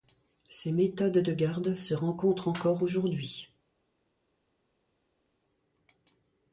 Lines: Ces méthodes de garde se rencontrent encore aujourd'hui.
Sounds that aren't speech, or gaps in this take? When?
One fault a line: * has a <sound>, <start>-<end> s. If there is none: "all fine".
all fine